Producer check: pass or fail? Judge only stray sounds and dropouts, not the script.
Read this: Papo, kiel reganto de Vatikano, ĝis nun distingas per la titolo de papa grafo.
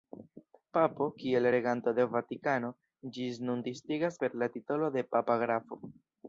pass